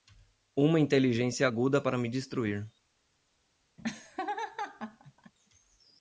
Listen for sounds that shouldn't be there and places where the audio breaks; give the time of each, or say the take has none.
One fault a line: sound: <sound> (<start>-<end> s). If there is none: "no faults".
sound: laugh (3.8-5.3 s)